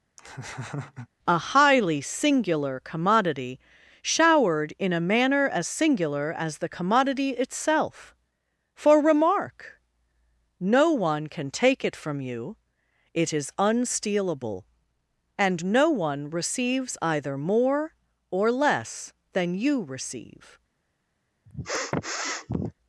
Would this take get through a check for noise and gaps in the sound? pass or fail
fail